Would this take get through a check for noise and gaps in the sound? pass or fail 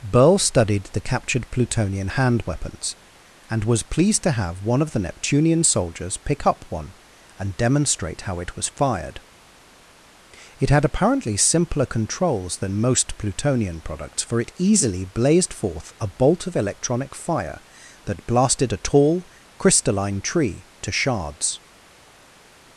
pass